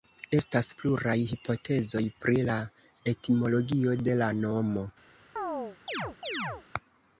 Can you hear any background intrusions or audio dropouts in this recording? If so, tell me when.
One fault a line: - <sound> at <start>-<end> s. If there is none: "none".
- chirp at 5.4-6.6 s